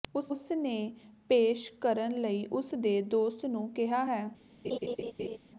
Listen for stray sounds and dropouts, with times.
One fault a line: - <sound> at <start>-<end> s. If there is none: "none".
- laugh at 4.6-5.4 s